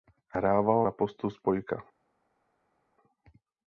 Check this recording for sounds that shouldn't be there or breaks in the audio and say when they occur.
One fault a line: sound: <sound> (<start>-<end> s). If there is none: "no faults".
no faults